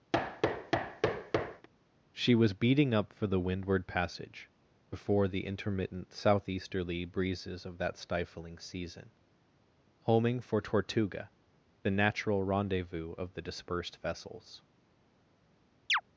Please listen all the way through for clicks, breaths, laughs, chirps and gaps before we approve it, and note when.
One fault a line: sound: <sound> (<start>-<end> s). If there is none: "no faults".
sound: thud (0.1-1.7 s)
sound: chirp (15.9-16.0 s)